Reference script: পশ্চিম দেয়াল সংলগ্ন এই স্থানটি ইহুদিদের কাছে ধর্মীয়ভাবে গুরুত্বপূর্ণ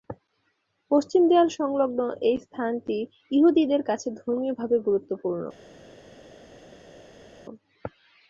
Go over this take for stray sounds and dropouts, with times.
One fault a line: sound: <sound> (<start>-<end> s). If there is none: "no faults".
no faults